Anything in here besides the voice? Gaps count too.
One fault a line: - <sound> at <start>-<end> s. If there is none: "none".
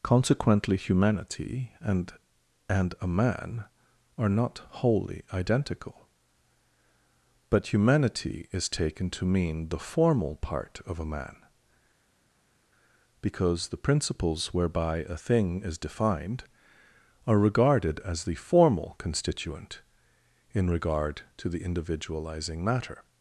none